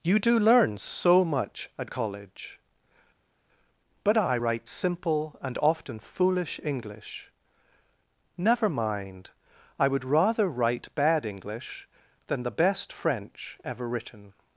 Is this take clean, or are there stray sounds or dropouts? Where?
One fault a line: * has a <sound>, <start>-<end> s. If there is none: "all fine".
all fine